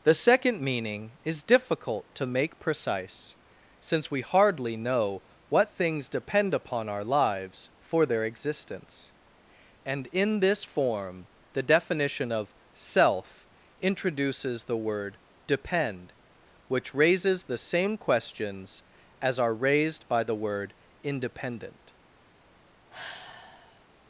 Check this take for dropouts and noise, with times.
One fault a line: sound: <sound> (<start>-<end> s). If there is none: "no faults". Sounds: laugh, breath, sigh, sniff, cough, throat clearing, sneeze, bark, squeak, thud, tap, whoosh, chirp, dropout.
sound: sigh (22.9-23.9 s)